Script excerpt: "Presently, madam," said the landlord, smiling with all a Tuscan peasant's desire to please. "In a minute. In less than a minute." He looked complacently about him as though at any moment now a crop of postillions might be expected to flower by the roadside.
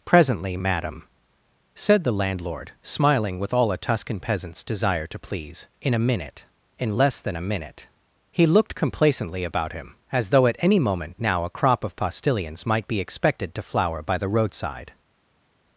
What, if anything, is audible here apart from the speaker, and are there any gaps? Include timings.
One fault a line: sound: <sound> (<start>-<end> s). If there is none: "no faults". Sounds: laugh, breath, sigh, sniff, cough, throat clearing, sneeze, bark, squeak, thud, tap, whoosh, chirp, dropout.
no faults